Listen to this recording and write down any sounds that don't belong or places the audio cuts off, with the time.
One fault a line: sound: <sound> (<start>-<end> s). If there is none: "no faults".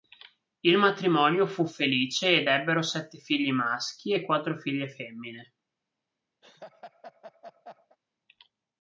sound: laugh (6.4-8.0 s)